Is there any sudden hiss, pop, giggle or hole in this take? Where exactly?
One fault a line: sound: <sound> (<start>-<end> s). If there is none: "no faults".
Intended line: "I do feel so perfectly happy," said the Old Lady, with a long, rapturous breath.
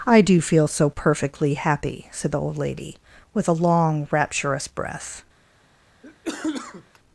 sound: cough (6.0-7.0 s)